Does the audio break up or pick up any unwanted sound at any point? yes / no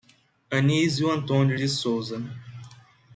no